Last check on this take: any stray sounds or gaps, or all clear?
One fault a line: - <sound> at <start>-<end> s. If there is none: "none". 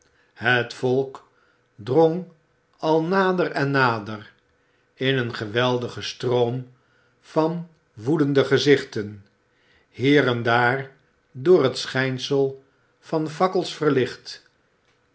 none